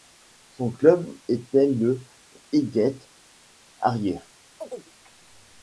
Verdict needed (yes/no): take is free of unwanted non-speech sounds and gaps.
no